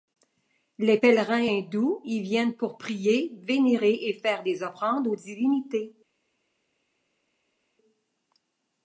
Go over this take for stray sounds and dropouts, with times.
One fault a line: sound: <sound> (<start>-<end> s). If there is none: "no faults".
no faults